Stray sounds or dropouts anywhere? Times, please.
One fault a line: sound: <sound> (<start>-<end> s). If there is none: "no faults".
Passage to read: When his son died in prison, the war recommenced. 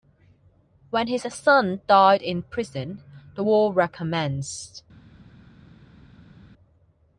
no faults